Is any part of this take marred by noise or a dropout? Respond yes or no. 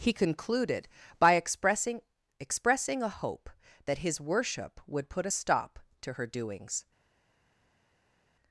no